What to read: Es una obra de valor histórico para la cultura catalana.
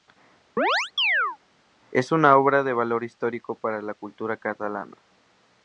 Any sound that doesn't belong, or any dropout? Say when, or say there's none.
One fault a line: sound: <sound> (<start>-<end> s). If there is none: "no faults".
sound: chirp (0.6-1.4 s)